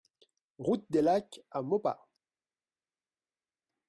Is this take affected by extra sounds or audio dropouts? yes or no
no